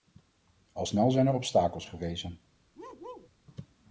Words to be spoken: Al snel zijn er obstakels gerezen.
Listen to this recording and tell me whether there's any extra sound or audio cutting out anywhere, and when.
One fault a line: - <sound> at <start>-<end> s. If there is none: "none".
- bark at 2.8-3.3 s